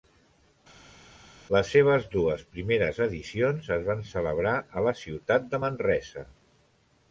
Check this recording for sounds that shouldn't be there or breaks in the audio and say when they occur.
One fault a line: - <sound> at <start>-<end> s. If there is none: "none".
none